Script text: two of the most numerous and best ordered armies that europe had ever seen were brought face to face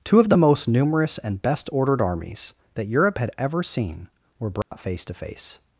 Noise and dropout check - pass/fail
fail